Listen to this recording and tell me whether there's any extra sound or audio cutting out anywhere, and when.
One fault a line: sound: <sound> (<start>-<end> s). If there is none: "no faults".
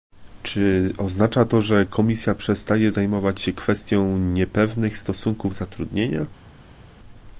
no faults